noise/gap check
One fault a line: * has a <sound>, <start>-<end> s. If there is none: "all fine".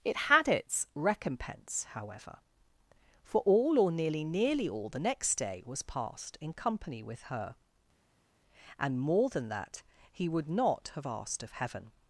all fine